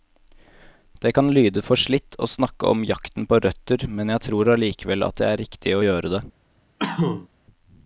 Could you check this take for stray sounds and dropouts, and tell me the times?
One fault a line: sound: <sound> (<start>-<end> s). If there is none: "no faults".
sound: cough (6.8-7.3 s)